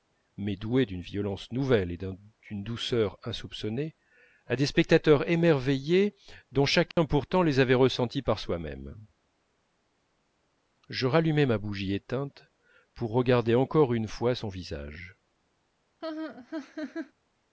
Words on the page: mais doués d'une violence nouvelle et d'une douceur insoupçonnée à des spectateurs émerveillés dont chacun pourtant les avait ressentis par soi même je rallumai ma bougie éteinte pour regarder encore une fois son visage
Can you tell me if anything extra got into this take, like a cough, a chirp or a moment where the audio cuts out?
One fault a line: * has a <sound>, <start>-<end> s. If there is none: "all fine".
* has a dropout, 6.9-7.0 s
* has a laugh, 16.0-17.1 s